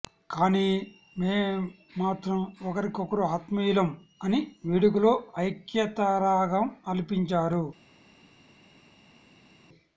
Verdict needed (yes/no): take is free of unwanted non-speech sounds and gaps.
yes